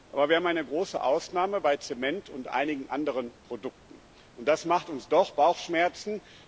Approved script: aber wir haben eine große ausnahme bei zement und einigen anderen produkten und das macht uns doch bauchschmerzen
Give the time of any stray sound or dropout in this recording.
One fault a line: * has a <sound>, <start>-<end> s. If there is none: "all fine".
all fine